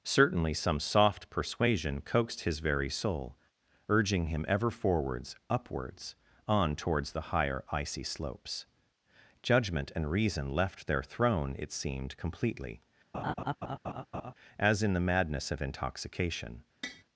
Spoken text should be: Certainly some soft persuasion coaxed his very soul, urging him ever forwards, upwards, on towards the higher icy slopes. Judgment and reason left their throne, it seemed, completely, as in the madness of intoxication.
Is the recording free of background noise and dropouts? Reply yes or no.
no